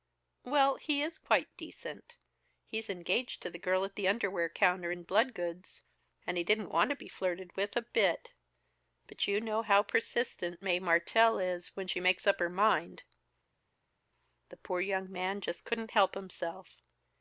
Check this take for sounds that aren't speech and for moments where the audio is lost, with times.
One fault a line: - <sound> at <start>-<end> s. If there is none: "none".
none